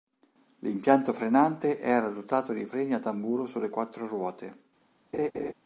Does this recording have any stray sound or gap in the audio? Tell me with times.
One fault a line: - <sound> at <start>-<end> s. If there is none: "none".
- laugh at 5.1-5.5 s